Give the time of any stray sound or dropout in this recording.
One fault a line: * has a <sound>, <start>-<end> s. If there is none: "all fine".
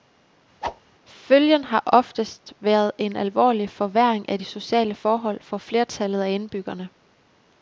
* has a whoosh, 0.6-0.8 s